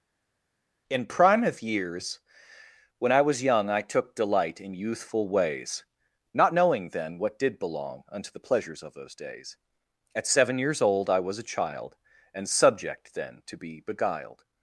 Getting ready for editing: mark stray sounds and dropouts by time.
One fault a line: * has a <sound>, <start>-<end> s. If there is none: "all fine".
all fine